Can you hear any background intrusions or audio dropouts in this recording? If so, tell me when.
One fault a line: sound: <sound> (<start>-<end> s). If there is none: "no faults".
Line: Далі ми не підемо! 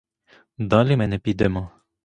no faults